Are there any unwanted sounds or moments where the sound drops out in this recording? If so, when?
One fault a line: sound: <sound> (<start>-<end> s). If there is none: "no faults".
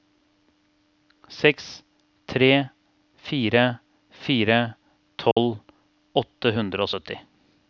sound: dropout (5.3-5.4 s)